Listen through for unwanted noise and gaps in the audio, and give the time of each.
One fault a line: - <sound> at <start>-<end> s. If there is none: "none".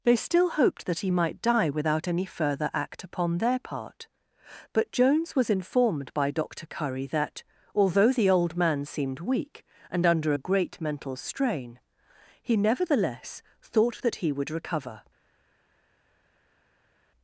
none